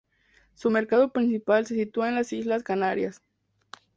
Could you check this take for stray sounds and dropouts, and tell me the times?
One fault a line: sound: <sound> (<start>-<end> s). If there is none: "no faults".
no faults